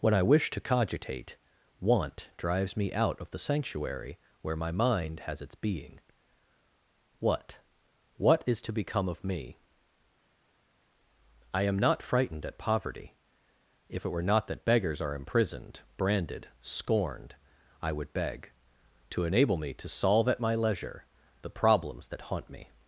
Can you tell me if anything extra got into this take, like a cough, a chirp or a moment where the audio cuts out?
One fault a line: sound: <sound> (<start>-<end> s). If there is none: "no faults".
no faults